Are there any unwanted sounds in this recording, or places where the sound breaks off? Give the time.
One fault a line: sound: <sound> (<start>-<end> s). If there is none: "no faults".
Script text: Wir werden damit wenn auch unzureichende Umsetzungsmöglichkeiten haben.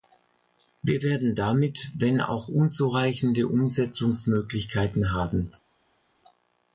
no faults